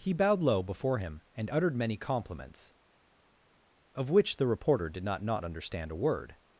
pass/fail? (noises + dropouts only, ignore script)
pass